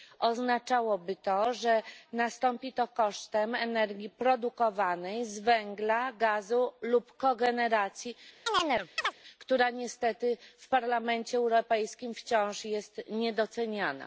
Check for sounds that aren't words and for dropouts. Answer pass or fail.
fail